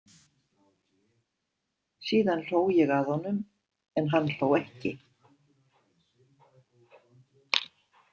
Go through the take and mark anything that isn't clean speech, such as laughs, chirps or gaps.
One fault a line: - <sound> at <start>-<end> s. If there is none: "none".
none